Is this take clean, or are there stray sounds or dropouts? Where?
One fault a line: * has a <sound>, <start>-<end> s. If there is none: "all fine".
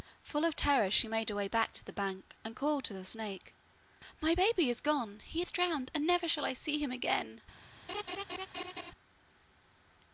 * has a laugh, 7.9-8.9 s